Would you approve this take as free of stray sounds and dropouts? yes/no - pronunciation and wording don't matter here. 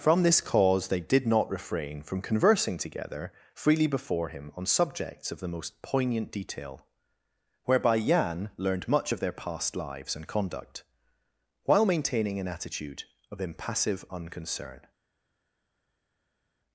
yes